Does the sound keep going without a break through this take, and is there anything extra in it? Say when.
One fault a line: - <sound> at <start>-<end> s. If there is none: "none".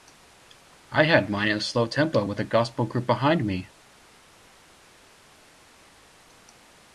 none